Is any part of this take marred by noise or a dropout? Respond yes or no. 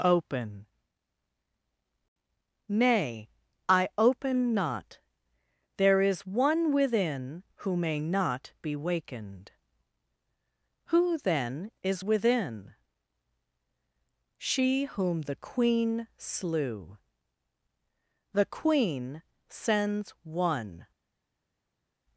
no